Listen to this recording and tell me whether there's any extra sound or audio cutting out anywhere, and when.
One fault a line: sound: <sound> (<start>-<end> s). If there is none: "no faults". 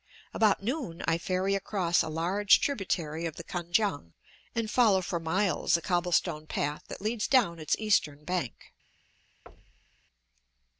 sound: thud (9.5-10.0 s)